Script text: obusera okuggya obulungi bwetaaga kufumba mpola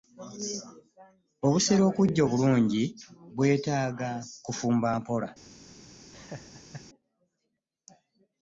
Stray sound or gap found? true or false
true